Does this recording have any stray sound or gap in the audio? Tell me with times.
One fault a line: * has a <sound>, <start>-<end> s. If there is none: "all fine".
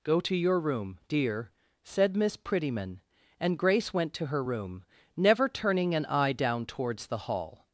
all fine